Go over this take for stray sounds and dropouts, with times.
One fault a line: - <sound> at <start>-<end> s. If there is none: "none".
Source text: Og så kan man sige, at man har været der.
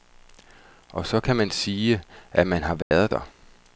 - dropout at 2.8-2.9 s